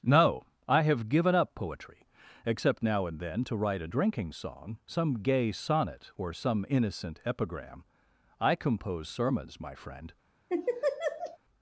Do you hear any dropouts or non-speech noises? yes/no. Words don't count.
yes